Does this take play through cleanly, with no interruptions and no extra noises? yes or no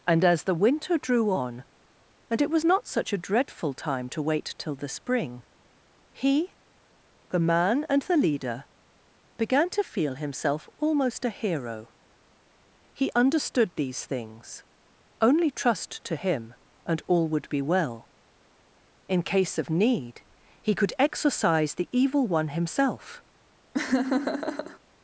no